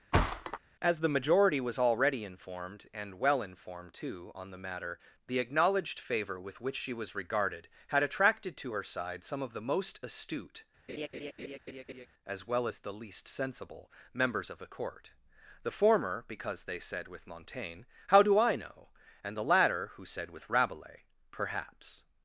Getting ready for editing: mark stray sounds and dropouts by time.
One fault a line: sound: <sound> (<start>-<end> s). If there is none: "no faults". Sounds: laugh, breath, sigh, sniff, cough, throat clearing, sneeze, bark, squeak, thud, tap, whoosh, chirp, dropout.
sound: thud (0.1-0.6 s)
sound: laugh (10.9-12.1 s)